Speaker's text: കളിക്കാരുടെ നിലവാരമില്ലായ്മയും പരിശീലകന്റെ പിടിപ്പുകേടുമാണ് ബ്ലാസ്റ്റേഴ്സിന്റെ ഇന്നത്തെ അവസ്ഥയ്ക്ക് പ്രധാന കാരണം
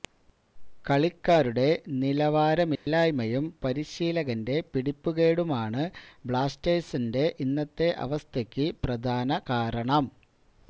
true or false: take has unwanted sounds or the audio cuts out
true